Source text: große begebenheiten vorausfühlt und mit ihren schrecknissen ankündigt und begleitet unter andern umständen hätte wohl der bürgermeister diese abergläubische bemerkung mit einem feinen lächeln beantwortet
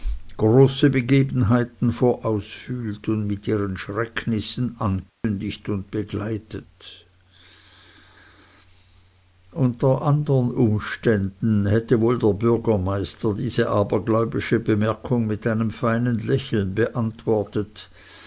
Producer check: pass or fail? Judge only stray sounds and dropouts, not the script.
fail